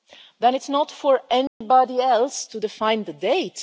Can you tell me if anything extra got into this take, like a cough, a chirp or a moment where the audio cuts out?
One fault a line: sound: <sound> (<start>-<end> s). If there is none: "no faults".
sound: dropout (1.5-1.6 s)